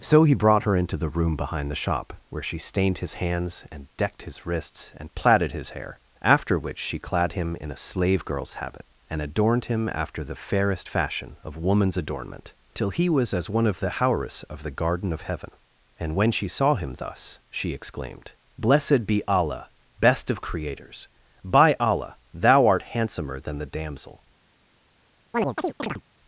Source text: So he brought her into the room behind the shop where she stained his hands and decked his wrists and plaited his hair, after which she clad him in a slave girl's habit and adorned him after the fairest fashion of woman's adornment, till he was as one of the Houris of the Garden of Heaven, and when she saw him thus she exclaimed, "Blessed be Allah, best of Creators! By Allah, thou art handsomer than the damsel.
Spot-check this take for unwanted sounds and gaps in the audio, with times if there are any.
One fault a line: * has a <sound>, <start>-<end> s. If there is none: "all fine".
* has a chirp, 25.3-26.0 s